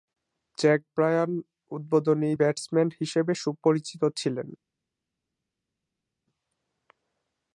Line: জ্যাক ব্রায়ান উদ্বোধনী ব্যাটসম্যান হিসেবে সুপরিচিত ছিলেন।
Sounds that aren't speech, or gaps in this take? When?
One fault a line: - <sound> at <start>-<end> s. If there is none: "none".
none